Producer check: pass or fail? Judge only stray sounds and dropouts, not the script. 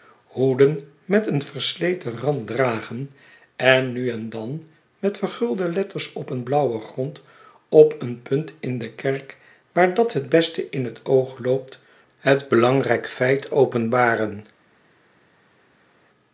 pass